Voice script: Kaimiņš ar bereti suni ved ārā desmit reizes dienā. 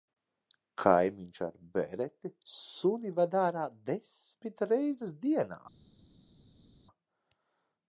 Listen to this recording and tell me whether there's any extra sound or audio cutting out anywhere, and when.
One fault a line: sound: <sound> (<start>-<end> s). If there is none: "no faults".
no faults